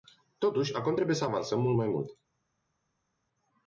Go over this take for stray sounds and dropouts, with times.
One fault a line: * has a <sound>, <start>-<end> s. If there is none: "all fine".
all fine